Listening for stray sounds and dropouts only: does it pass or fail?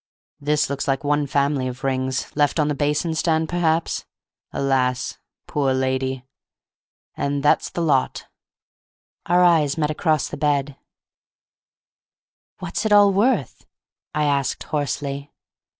pass